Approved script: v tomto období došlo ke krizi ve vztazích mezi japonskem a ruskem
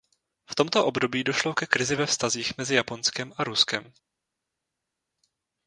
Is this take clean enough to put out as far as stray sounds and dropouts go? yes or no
yes